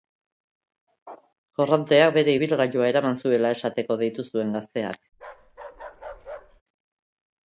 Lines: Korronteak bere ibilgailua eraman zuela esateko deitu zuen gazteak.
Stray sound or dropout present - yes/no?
yes